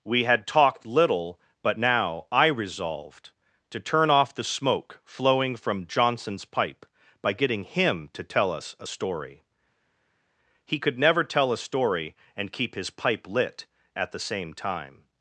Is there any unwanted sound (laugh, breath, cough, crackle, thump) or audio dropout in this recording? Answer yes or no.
no